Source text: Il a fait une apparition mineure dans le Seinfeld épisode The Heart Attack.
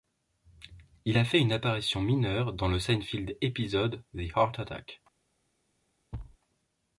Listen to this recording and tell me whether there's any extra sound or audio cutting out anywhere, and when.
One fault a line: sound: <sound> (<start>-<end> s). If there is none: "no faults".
sound: thud (6.1-6.4 s)